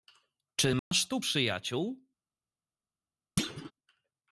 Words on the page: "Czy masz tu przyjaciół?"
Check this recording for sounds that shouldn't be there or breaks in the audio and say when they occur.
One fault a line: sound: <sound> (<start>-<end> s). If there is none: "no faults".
sound: dropout (0.8-0.9 s)
sound: thud (3.4-3.7 s)